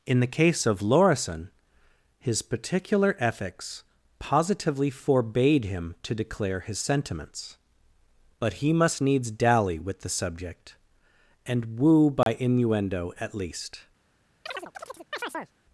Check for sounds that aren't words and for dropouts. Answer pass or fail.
fail